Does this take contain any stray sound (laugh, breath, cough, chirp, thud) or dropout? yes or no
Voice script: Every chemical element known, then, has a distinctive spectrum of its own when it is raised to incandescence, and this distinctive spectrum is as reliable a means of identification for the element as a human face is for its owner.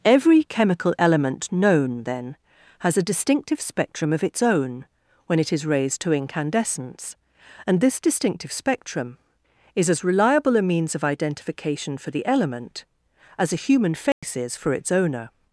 yes